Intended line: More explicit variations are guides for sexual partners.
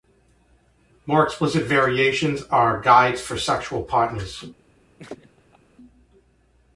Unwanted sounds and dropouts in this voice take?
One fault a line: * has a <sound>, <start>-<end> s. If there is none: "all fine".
* has a laugh, 5.0-5.6 s